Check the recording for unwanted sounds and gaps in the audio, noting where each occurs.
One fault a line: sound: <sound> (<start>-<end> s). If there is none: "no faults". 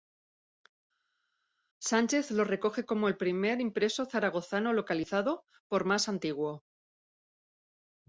no faults